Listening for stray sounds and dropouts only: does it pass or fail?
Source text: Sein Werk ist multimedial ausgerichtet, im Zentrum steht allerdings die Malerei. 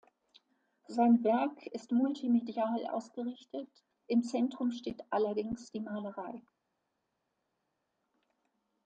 pass